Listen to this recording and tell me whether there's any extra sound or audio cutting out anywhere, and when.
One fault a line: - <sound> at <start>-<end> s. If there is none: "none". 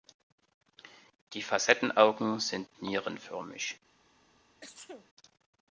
- sneeze at 4.6-5.1 s